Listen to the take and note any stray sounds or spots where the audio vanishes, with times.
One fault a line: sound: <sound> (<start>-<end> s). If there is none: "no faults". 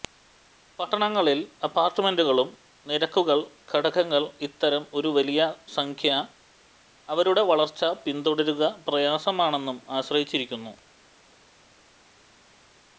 no faults